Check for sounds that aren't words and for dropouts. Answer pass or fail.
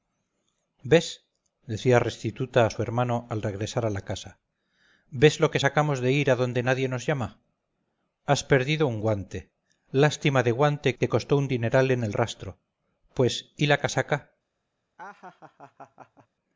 fail